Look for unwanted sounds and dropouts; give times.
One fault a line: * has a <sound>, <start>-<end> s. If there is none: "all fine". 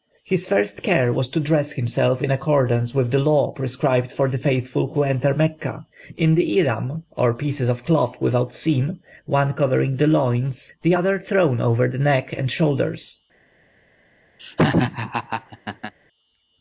* has a laugh, 14.4-15.9 s